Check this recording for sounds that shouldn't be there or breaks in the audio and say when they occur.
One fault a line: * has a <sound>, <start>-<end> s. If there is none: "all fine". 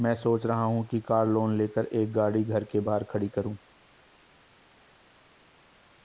all fine